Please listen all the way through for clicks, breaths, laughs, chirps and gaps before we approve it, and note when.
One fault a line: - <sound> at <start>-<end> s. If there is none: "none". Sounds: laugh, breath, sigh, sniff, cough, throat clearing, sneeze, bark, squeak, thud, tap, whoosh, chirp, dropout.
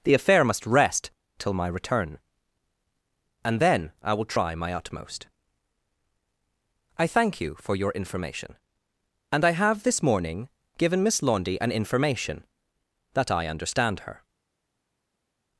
none